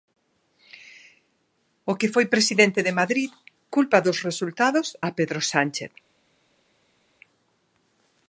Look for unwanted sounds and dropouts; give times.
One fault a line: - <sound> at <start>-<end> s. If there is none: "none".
none